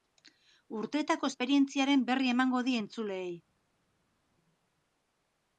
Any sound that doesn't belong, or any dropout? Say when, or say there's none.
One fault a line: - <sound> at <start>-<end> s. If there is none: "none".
none